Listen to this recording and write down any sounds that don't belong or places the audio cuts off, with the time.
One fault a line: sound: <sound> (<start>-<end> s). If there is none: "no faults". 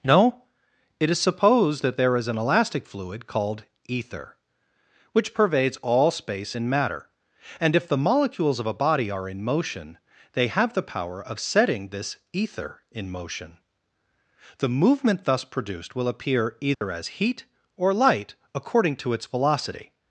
sound: dropout (16.7-16.8 s)